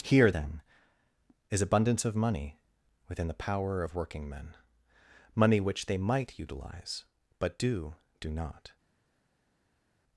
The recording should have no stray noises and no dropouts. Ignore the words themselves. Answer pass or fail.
pass